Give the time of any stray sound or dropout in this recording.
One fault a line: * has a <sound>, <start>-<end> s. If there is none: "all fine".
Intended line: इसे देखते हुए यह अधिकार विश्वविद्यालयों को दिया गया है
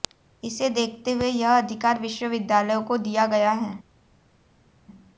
all fine